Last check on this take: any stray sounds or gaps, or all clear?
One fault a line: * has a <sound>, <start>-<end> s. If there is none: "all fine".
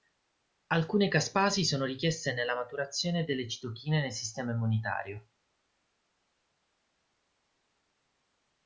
all fine